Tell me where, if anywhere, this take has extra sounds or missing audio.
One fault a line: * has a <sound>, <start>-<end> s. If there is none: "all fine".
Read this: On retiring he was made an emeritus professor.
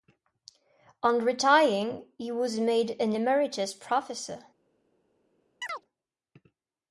* has a chirp, 5.6-5.8 s